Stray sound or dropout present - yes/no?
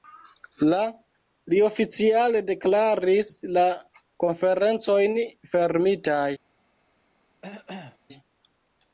yes